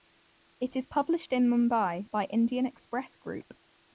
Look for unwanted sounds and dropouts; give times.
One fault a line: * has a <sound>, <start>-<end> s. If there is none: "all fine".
all fine